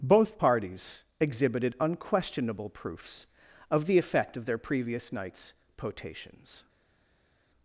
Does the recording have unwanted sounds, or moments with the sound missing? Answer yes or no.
no